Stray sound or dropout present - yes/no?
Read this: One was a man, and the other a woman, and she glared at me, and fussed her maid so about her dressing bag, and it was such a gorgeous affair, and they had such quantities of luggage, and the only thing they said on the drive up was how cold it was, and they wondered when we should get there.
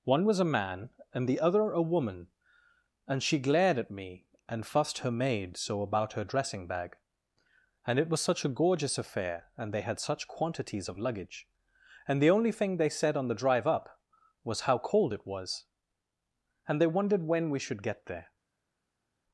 no